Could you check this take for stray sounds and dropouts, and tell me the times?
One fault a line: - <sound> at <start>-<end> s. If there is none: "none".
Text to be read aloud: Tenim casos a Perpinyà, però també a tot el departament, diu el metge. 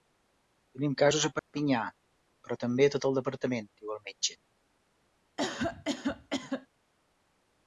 - dropout at 1.4-1.5 s
- cough at 5.4-6.7 s